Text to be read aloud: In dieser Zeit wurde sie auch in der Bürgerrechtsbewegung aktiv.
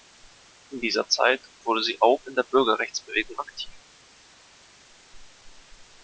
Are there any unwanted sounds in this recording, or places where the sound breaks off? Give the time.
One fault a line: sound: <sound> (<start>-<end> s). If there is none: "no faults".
no faults